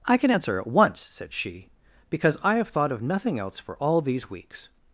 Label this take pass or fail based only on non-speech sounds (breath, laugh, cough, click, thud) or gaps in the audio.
pass